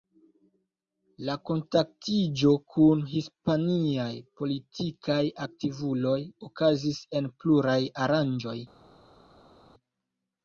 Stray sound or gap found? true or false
false